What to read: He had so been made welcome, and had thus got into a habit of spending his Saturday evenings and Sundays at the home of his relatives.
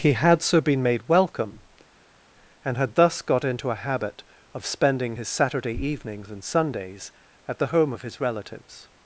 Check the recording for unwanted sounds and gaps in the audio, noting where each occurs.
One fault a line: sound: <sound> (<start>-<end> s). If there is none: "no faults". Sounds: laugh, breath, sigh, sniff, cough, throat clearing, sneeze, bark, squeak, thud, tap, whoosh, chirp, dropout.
no faults